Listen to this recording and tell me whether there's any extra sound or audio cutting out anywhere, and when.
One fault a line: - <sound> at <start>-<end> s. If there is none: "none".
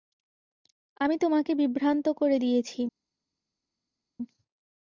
none